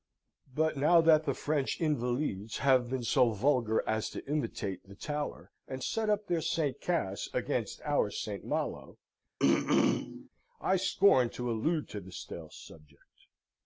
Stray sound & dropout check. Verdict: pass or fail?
fail